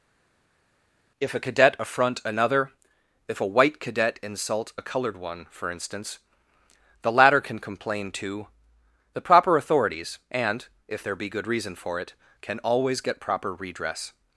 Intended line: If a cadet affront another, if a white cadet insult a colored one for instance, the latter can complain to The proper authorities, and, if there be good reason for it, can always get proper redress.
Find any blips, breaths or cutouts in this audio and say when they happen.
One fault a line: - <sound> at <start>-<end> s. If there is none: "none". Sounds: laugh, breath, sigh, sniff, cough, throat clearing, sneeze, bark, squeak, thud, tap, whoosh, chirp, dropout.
none